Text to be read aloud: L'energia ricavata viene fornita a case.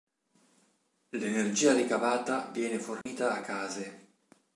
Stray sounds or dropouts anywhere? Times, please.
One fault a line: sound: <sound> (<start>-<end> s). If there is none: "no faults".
sound: dropout (3.0-3.1 s)